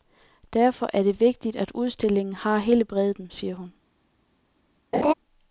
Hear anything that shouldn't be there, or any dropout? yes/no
yes